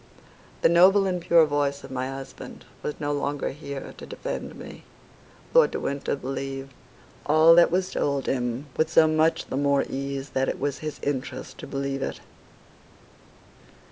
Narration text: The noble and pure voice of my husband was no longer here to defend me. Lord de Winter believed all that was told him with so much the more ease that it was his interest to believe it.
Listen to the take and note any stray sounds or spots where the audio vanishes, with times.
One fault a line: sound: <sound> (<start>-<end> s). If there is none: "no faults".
no faults